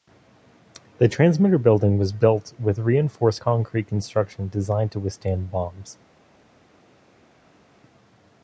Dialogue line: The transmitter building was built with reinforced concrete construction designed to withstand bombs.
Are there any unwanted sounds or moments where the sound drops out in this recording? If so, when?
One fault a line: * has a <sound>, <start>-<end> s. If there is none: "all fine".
all fine